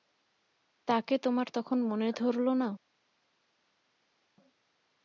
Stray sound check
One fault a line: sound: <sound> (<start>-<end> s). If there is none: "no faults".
no faults